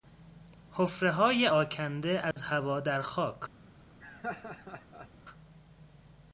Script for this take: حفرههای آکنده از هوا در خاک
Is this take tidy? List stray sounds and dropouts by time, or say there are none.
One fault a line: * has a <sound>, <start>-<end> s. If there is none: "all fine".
* has a dropout, 2.3-2.4 s
* has a laugh, 4.0-5.1 s